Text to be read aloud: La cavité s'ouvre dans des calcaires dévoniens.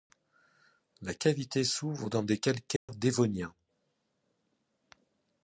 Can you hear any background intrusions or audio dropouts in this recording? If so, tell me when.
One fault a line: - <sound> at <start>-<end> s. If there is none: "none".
- dropout at 2.8-2.9 s